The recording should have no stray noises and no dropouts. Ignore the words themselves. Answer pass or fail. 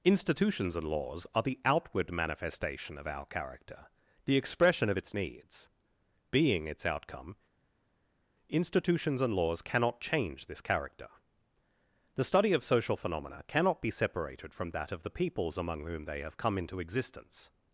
pass